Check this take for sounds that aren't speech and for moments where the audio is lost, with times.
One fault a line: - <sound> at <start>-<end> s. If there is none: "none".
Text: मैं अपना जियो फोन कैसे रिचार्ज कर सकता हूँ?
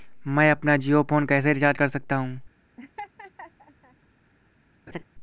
- laugh at 2.8-4.0 s
- laugh at 4.9-5.0 s